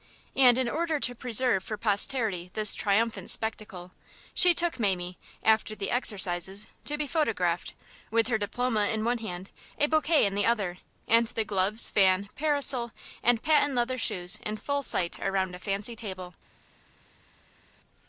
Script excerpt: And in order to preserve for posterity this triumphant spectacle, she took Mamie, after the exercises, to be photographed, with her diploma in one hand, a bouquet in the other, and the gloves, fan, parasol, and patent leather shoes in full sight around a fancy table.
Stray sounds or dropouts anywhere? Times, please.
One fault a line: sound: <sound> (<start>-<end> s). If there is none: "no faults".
no faults